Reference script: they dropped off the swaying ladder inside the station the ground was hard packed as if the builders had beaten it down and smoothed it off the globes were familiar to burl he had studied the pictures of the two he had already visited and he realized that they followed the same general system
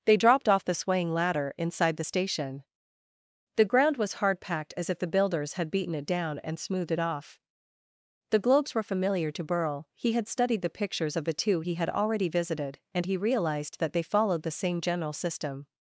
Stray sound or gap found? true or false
false